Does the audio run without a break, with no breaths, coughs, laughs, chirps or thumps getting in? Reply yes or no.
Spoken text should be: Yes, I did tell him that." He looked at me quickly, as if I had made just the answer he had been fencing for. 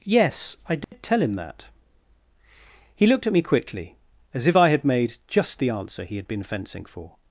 no